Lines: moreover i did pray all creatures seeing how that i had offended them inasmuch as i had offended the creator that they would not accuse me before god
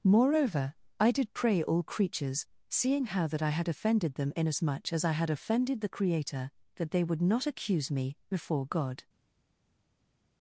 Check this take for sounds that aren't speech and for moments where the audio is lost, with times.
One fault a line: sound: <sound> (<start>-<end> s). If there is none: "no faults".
no faults